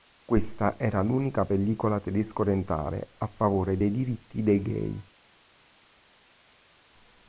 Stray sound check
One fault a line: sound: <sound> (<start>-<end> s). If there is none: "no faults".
no faults